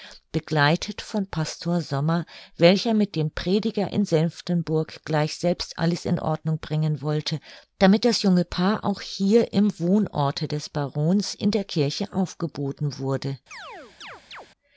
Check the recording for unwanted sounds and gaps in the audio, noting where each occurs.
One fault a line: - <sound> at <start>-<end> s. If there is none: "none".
- chirp at 13.5-14.5 s